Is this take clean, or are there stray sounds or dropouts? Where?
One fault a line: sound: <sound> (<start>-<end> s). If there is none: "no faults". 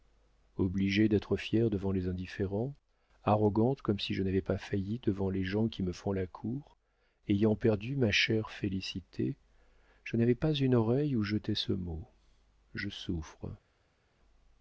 no faults